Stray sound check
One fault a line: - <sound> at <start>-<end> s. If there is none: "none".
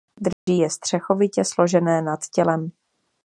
- dropout at 0.3-0.5 s